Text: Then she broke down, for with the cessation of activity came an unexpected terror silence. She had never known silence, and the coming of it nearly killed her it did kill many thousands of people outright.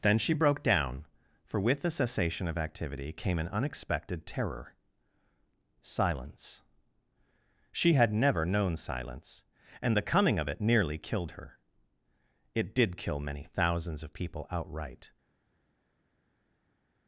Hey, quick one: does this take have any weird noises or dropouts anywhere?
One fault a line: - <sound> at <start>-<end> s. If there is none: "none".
none